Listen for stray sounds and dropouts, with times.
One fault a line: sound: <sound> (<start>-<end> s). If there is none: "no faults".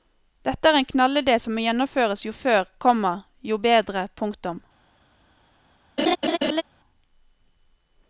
sound: laugh (6.0-6.6 s)